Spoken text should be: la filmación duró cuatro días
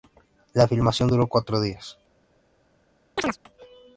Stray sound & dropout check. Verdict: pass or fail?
fail